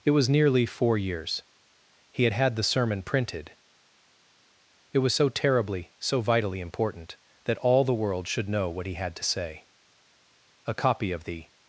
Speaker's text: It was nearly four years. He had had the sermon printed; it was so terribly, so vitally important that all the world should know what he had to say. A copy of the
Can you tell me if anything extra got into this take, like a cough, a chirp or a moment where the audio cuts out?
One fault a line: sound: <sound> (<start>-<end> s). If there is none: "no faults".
no faults